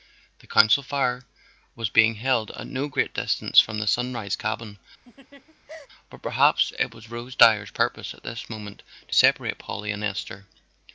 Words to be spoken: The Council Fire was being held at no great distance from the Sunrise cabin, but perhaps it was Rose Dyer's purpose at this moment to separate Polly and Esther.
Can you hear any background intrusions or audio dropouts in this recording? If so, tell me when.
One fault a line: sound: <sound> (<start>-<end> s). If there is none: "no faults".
sound: laugh (5.0-5.9 s)